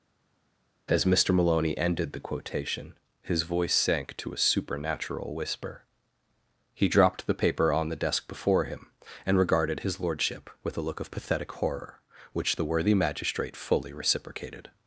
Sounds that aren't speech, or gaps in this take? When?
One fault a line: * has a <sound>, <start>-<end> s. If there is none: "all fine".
all fine